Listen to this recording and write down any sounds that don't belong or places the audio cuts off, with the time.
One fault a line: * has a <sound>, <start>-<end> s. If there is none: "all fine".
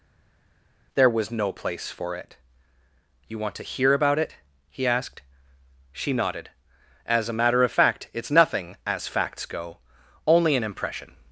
all fine